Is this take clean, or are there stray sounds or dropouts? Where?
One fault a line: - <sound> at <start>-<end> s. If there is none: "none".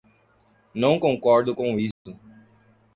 - dropout at 1.9-2.1 s